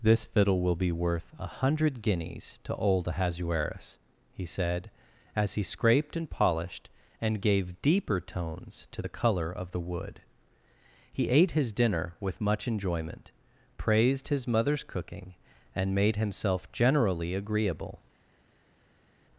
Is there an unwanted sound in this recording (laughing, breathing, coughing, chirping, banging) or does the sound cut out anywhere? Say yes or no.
no